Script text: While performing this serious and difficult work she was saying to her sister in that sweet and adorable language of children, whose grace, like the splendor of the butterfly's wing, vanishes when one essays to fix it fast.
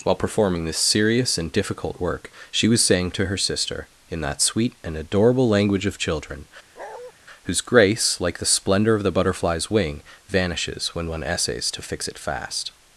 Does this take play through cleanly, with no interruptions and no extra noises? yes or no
no